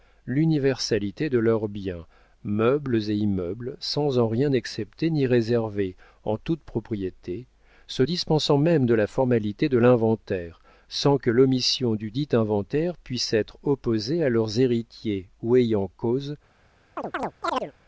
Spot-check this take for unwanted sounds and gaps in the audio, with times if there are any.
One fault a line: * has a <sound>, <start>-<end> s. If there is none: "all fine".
* has a chirp, 17.0-17.7 s